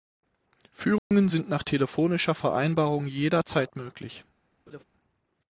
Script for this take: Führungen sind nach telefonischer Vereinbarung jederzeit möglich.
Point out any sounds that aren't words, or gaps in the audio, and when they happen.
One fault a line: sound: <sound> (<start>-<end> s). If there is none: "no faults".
sound: dropout (1.0-1.1 s)
sound: laugh (4.7-4.8 s)